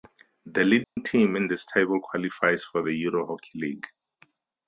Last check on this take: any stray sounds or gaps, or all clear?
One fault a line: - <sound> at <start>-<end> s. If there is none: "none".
- dropout at 0.8-1.0 s